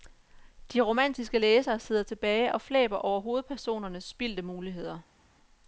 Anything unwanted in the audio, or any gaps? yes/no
no